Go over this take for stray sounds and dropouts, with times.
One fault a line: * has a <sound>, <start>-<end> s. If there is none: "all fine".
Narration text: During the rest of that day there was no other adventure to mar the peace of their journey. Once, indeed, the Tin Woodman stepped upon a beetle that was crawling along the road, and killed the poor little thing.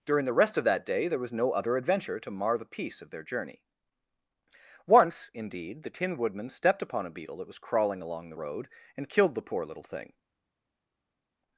all fine